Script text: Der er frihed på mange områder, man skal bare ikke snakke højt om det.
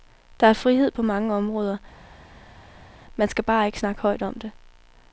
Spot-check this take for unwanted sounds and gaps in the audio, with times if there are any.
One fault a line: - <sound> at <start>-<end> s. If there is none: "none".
none